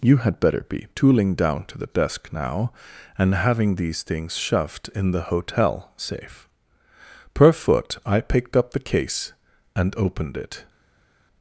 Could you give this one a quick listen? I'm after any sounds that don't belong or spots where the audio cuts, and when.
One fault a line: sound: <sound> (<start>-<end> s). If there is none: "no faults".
no faults